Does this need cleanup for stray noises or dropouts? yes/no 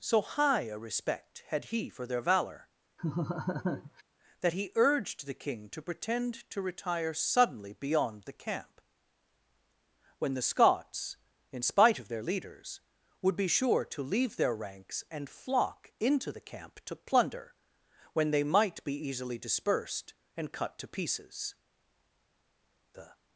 yes